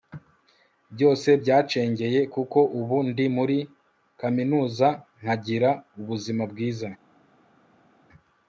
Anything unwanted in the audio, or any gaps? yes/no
no